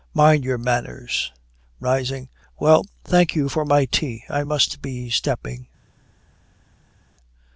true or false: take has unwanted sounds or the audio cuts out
false